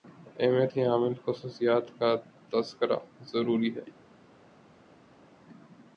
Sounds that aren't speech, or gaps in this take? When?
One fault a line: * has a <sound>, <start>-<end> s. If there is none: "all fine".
all fine